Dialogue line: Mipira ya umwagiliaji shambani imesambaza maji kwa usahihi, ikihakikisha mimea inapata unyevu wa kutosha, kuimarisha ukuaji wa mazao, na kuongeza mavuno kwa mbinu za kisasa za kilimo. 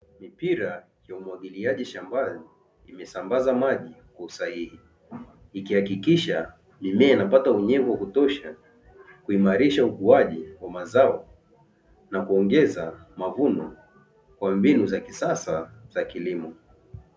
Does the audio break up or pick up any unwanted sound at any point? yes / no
no